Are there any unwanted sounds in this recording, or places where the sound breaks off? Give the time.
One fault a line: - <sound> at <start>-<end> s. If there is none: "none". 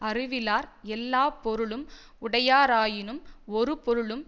none